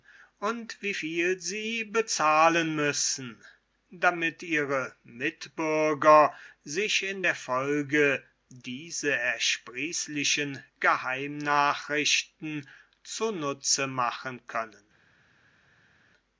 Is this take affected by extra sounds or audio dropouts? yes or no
no